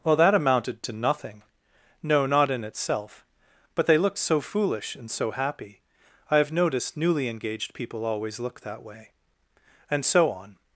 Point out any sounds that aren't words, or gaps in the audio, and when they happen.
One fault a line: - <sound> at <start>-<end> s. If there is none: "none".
none